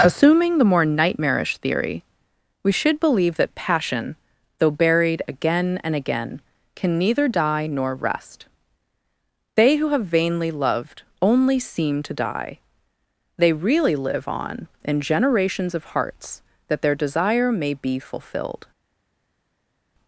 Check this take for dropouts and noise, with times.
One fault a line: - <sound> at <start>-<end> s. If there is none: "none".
none